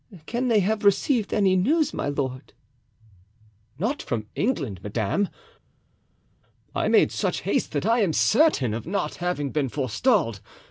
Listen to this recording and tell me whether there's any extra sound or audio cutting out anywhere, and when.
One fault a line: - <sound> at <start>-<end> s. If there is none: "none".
none